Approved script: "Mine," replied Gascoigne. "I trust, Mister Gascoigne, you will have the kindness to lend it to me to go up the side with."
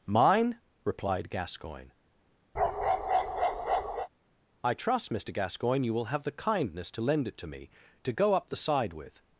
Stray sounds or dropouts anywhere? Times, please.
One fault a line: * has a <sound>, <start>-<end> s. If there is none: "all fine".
* has a bark, 2.5-4.1 s